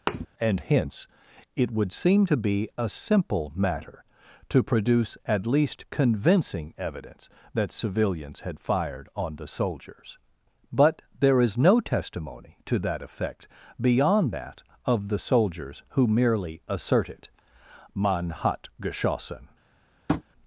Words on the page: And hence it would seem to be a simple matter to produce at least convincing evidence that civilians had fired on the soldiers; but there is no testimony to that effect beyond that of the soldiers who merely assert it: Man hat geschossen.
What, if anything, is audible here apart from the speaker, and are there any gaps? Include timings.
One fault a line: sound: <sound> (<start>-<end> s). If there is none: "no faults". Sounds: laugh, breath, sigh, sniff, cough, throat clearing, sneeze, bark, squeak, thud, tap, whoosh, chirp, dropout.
sound: thud (0.1-0.3 s)
sound: tap (20.1-20.2 s)